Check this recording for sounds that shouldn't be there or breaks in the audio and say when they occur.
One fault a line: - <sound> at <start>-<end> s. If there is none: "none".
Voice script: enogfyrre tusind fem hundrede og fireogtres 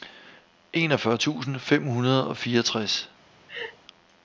- laugh at 3.5-3.8 s